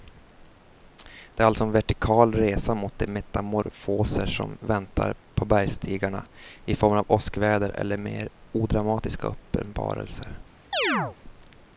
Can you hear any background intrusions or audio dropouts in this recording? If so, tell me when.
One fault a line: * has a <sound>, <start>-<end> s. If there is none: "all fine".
* has a chirp, 10.7-11.2 s